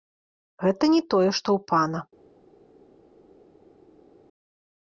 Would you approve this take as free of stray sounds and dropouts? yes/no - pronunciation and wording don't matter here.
yes